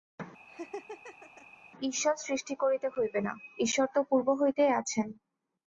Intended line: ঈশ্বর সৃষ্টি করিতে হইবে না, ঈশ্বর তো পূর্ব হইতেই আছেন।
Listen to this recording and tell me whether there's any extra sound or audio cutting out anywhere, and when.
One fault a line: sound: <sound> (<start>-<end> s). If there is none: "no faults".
sound: laugh (0.5-1.5 s)